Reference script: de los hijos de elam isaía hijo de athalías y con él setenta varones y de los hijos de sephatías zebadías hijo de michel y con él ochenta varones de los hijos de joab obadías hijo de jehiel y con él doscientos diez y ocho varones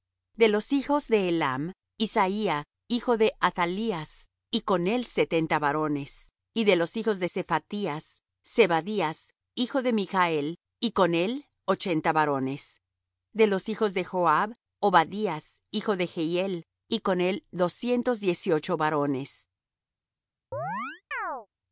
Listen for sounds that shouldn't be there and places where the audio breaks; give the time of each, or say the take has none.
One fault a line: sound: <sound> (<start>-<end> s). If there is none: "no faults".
sound: chirp (20.5-21.5 s)